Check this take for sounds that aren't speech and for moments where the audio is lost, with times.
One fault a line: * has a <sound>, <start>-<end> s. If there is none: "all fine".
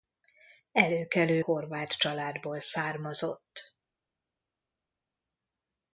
all fine